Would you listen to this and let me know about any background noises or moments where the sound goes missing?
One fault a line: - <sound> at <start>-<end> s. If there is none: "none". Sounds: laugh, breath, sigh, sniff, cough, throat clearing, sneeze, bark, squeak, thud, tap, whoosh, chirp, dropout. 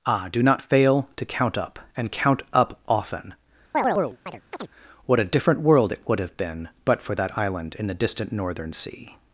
- chirp at 3.7-4.7 s